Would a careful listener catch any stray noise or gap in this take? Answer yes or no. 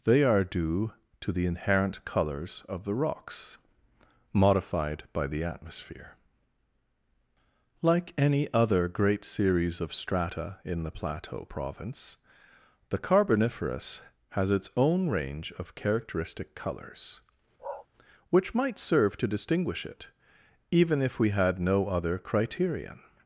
yes